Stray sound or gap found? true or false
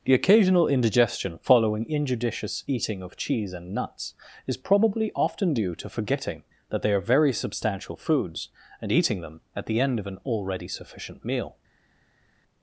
false